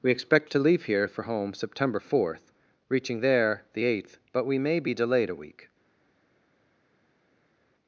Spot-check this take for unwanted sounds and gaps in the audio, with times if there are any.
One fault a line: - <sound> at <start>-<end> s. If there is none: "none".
none